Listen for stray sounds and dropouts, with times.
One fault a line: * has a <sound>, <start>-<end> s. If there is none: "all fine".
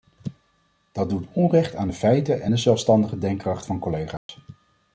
* has a dropout, 4.2-4.3 s